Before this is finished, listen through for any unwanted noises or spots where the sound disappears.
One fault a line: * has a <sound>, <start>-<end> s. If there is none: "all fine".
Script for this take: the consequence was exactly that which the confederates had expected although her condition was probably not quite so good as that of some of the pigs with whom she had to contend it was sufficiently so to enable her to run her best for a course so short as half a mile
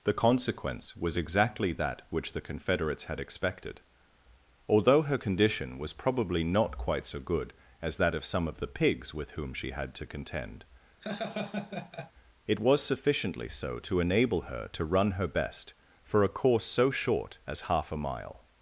* has a laugh, 11.0-12.1 s